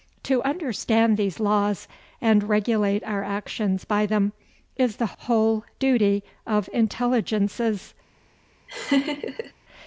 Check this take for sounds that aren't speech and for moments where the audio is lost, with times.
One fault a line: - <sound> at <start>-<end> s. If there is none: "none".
- laugh at 8.7-9.5 s